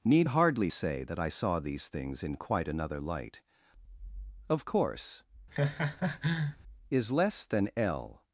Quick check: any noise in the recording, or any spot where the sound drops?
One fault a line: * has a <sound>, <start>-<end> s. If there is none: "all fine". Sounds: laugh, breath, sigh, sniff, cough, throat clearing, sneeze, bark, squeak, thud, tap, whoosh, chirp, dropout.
* has a laugh, 5.5-6.6 s